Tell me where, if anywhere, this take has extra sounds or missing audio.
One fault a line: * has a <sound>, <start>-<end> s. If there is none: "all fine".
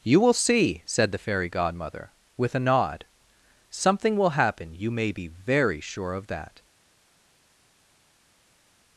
all fine